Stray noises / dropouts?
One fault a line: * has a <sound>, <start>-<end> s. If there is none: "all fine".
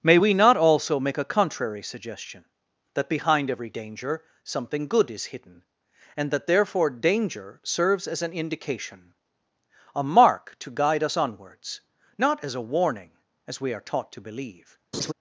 * has a laugh, 14.9-15.1 s